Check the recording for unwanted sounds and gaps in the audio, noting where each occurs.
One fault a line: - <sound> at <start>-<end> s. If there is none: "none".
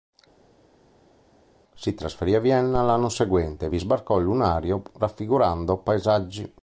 none